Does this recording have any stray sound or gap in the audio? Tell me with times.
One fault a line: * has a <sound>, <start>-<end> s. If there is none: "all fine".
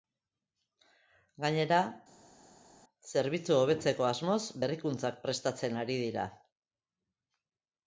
all fine